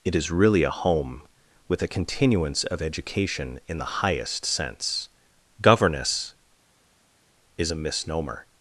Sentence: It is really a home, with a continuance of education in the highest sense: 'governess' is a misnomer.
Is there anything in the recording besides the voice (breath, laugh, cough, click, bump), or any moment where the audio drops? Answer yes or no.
no